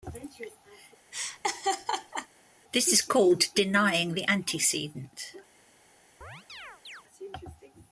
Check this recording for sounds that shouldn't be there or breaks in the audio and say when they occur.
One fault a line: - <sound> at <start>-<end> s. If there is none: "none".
- laugh at 1.1-2.3 s
- chirp at 6.2-7.0 s